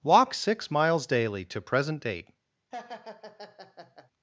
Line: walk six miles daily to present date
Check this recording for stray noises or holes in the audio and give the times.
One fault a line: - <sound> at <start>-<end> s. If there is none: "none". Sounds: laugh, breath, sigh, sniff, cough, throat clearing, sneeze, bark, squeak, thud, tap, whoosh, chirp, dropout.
- laugh at 2.7-4.1 s